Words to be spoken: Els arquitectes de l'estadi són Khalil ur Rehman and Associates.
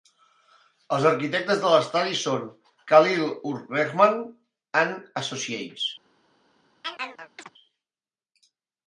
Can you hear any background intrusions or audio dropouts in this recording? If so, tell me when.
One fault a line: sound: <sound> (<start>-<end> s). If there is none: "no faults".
sound: chirp (6.8-7.5 s)